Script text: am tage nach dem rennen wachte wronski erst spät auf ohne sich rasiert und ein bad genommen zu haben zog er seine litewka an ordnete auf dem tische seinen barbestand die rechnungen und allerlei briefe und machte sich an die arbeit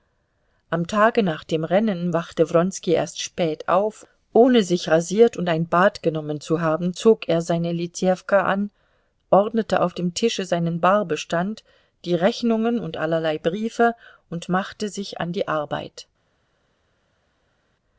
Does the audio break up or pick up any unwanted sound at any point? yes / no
no